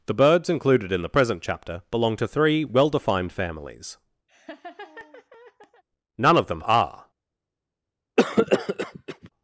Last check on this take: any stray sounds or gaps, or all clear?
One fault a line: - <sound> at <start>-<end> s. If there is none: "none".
- laugh at 4.3-5.8 s
- cough at 8.2-9.3 s